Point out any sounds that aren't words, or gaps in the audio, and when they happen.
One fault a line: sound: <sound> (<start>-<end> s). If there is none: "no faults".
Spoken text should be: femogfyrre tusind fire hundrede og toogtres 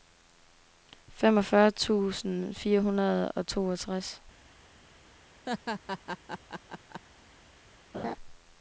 sound: laugh (5.5-7.0 s)
sound: laugh (7.9-8.2 s)